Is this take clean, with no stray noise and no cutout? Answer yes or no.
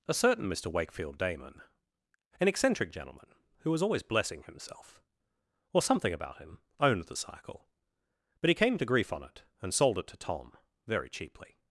yes